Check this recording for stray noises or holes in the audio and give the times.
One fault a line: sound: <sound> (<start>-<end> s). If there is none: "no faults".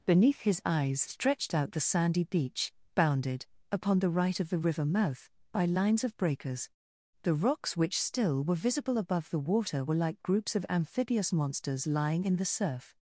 no faults